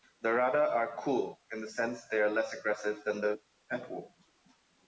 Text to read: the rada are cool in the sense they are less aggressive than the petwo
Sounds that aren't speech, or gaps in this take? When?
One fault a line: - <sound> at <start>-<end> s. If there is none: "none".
none